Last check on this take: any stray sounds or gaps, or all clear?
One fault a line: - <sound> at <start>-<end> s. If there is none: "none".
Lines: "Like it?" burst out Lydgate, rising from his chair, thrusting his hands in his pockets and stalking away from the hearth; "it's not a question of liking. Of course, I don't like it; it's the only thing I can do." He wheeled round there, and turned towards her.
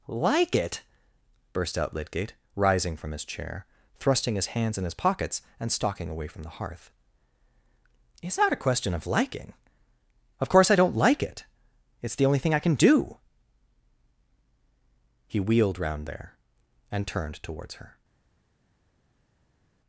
none